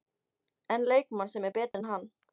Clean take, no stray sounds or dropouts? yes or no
no